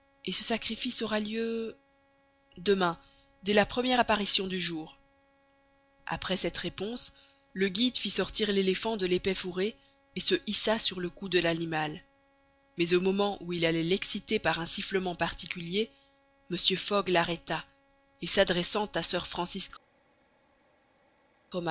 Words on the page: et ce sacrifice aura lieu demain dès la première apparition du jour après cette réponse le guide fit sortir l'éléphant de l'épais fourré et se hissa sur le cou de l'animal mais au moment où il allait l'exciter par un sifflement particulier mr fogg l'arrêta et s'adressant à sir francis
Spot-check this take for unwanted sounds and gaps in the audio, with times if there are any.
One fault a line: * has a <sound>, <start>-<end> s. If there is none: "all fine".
all fine